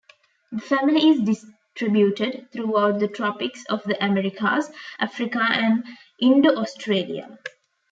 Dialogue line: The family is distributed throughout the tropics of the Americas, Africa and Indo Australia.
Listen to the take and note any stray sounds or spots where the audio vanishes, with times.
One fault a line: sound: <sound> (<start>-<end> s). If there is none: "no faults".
no faults